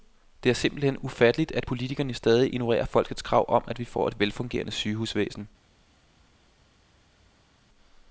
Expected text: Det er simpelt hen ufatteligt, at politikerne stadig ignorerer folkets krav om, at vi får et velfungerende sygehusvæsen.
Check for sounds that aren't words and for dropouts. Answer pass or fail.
pass